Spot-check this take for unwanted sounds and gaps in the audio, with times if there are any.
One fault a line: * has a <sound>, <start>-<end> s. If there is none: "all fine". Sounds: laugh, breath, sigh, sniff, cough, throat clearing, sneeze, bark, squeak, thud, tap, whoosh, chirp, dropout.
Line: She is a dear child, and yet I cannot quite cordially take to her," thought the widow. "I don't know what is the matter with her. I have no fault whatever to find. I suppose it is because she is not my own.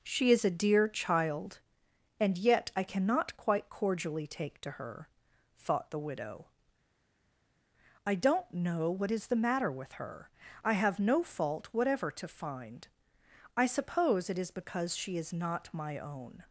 all fine